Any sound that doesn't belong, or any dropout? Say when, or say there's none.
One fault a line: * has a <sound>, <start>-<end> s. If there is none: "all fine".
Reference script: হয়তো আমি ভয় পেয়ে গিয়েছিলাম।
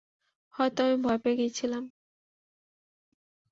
all fine